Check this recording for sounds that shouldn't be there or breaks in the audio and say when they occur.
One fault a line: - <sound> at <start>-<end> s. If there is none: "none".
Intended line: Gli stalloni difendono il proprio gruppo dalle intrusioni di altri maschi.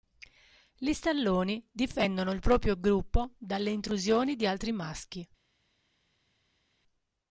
none